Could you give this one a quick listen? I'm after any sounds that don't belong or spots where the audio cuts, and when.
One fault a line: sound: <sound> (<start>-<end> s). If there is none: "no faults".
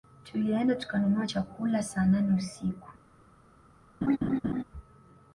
sound: laugh (4.0-4.6 s)